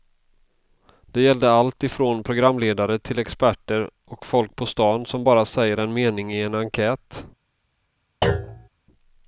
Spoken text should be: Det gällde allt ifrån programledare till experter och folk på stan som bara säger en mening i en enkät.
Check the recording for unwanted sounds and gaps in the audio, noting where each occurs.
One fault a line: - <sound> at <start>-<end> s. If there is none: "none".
- thud at 8.2-8.7 s